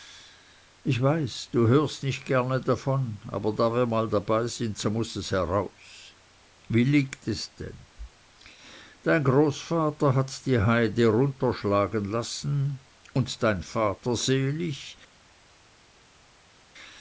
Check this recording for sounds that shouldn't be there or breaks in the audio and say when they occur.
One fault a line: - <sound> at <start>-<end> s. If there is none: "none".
none